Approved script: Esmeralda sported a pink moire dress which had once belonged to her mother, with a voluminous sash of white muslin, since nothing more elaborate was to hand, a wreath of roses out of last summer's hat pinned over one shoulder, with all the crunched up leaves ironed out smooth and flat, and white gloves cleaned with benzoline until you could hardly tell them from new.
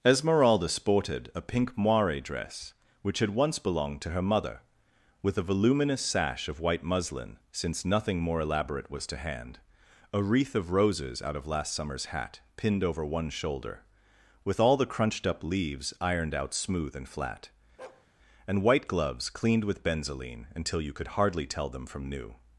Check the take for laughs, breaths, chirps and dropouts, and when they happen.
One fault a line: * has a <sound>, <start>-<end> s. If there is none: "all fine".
* has a bark, 17.8-18.1 s